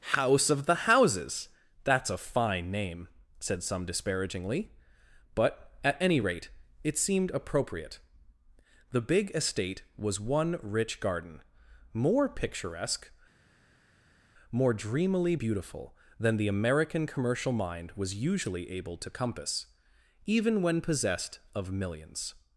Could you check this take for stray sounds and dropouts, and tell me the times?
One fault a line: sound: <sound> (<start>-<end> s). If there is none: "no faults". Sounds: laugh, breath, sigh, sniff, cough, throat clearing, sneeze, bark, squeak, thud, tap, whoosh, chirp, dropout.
no faults